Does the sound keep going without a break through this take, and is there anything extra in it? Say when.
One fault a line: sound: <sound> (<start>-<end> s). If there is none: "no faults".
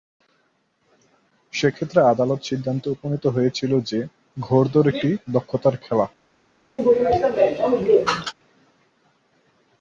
sound: sneeze (6.8-8.3 s)